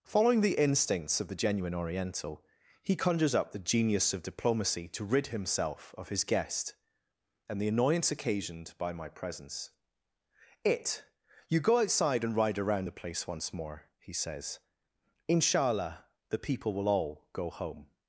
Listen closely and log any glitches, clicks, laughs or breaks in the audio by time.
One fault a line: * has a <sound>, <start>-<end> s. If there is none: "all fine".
all fine